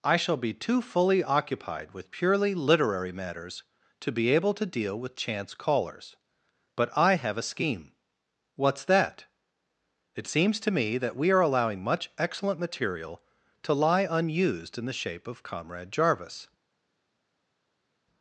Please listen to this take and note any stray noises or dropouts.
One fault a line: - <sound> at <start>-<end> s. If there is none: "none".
none